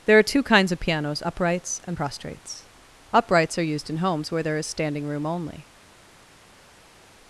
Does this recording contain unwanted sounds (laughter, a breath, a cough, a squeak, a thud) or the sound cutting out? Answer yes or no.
no